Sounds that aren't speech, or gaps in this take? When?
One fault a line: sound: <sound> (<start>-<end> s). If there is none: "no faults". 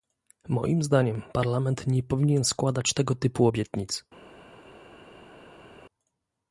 no faults